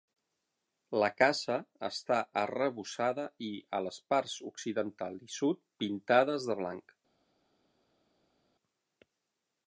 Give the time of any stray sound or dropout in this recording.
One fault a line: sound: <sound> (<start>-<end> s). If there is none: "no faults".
no faults